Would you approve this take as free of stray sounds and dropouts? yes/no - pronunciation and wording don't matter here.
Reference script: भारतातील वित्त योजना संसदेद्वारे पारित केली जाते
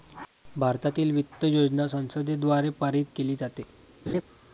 no